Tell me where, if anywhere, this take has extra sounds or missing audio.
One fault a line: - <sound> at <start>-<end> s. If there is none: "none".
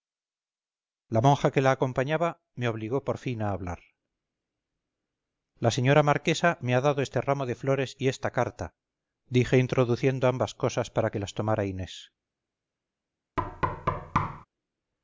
- thud at 13.4-14.5 s